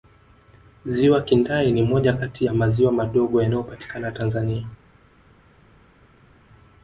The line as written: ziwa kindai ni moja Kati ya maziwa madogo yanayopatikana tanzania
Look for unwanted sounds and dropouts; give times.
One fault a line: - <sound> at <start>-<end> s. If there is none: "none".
none